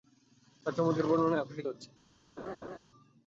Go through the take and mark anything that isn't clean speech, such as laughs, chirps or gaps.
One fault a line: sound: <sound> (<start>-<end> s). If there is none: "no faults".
sound: laugh (2.4-2.8 s)